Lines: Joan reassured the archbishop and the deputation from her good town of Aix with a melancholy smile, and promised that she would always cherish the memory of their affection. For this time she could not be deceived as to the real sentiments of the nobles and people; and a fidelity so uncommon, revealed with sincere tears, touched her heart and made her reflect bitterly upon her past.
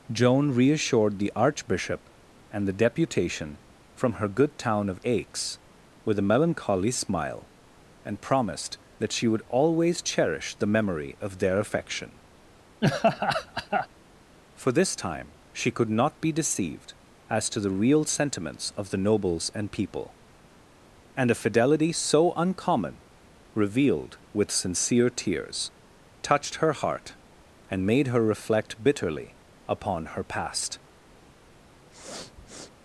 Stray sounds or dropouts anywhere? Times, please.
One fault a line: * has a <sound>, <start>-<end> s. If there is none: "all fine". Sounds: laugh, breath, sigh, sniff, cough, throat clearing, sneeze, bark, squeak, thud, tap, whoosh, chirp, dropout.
* has a laugh, 12.8-13.9 s
* has a sniff, 31.9-32.7 s